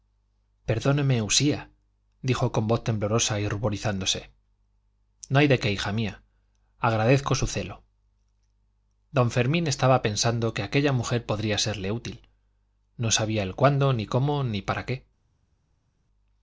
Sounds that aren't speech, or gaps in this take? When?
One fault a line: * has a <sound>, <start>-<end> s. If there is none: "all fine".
all fine